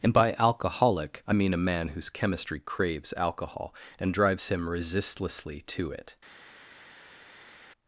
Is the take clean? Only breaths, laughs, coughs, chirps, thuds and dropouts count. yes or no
yes